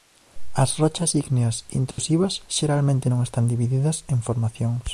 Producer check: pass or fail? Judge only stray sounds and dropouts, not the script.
fail